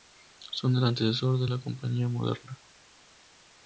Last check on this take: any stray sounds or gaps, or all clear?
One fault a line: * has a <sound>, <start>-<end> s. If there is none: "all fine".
all fine